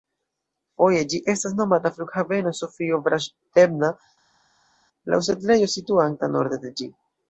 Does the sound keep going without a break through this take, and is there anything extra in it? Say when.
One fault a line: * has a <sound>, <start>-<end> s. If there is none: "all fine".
all fine